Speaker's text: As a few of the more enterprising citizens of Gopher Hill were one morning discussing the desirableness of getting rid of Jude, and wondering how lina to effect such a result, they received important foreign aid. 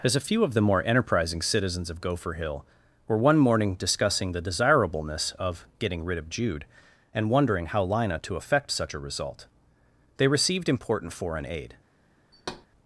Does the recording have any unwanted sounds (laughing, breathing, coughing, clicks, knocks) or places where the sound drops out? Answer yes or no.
yes